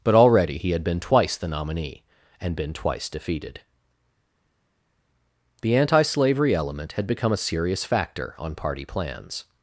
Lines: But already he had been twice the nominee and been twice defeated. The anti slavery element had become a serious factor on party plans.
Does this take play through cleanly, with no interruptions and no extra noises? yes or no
yes